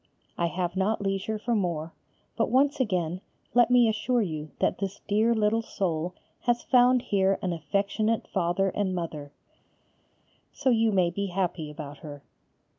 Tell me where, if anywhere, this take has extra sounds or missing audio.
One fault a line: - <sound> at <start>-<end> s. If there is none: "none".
none